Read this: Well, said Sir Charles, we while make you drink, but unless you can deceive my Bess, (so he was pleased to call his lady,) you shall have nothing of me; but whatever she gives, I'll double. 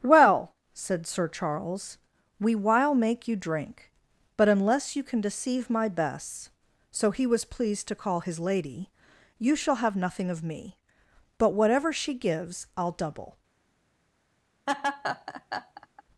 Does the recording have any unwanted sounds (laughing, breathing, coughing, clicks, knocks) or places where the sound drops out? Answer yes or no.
yes